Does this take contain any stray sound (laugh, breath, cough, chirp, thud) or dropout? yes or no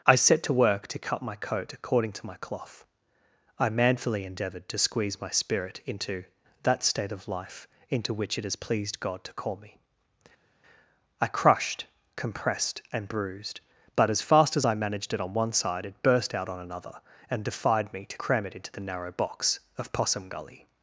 no